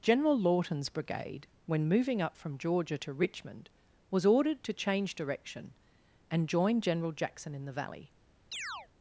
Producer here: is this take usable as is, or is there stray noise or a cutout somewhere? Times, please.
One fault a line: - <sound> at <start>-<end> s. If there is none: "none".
- chirp at 8.5-8.9 s